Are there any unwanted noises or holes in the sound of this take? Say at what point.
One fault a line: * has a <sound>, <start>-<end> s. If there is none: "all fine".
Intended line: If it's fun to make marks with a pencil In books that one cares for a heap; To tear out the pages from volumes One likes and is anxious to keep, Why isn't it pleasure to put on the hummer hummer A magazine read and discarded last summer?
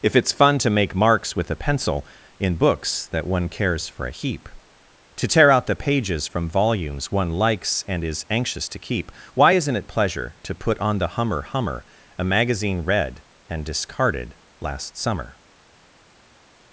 all fine